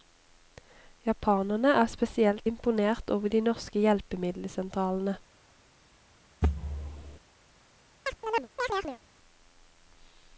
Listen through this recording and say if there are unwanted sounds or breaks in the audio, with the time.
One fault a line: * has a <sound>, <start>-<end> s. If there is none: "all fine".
* has a thud, 6.4-7.2 s
* has a chirp, 8.1-9.0 s